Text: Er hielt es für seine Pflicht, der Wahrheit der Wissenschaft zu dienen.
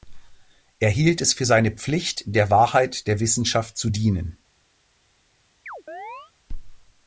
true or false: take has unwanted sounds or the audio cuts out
true